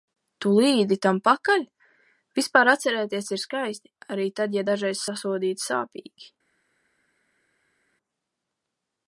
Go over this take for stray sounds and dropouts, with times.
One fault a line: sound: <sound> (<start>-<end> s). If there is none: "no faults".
no faults